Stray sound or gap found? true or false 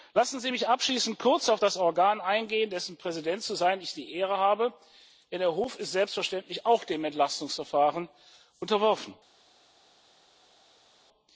false